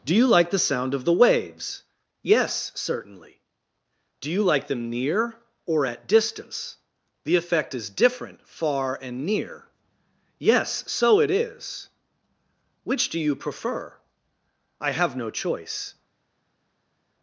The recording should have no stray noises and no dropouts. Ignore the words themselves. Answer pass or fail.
pass